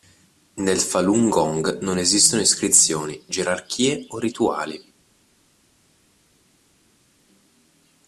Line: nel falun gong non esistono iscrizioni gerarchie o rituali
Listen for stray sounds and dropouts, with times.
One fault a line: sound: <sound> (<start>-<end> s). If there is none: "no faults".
no faults